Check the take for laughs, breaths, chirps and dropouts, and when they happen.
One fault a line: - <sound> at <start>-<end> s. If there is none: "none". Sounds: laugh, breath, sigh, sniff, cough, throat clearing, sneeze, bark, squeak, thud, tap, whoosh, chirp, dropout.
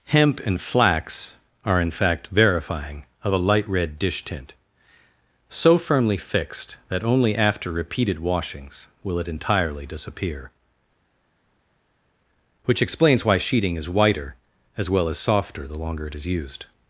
none